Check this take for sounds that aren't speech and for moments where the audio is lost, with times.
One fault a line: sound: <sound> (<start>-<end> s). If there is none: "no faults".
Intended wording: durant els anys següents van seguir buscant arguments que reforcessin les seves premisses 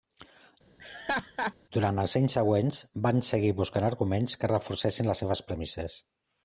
sound: laugh (0.8-1.5 s)